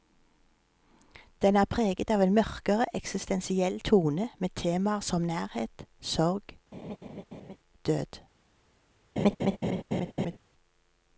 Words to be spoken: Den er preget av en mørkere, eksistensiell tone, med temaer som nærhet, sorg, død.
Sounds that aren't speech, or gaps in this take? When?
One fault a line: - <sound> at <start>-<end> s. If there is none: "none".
- laugh at 6.7-7.6 s
- laugh at 9.2-10.4 s